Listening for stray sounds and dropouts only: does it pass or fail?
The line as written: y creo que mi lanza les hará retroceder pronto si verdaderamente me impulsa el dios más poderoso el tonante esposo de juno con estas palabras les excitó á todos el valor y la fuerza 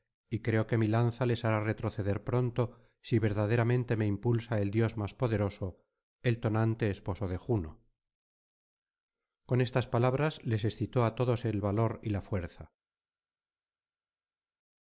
pass